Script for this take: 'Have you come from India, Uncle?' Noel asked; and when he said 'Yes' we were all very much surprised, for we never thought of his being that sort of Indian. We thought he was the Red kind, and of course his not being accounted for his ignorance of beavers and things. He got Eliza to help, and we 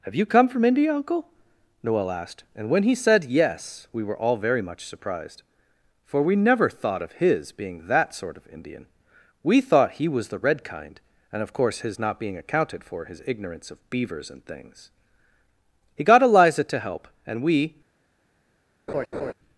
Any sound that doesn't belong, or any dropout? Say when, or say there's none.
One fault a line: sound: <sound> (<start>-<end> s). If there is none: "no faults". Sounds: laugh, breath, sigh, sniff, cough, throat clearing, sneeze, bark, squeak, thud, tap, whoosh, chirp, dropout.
sound: laugh (18.9-19.3 s)